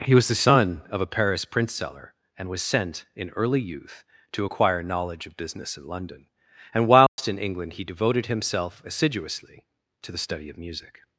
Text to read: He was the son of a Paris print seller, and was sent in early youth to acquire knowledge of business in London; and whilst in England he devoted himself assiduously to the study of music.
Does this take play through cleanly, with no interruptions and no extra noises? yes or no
no